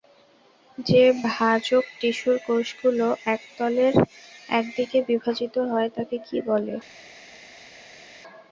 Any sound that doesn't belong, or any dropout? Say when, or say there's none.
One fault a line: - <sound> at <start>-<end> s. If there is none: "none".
none